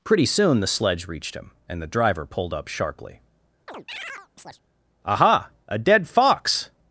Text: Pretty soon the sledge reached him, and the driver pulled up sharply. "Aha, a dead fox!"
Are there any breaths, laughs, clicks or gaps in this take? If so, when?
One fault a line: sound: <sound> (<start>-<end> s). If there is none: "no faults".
sound: chirp (3.7-4.6 s)